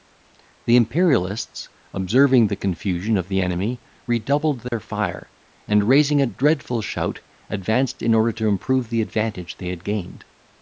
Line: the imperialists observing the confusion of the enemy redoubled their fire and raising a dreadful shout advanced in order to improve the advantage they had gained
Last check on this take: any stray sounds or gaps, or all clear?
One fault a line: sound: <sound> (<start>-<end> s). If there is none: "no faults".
sound: dropout (4.7-4.7 s)